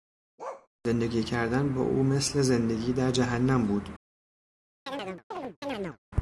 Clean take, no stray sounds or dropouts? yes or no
no